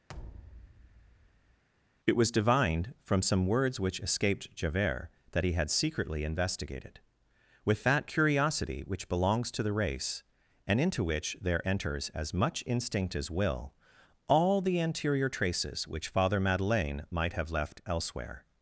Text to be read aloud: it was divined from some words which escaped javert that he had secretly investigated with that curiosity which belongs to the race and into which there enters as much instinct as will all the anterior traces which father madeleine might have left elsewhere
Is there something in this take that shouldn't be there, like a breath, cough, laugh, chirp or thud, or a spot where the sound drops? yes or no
yes